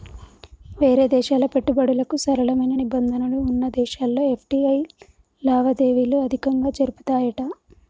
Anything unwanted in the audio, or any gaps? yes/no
no